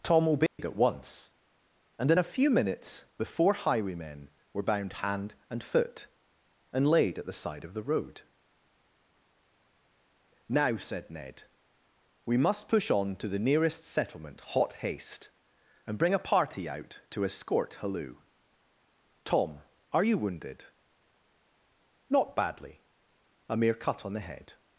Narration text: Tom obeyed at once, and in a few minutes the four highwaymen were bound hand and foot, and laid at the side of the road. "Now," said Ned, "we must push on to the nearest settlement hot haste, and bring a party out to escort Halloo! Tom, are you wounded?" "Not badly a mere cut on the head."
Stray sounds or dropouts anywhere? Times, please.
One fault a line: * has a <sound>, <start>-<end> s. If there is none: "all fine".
* has a dropout, 0.5-0.6 s